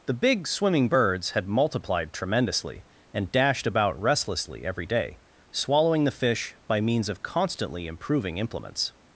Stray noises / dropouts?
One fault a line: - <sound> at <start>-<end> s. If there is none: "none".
none